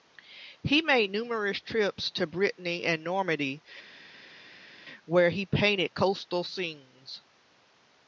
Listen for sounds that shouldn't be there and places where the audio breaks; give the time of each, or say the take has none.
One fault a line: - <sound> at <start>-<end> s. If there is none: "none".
none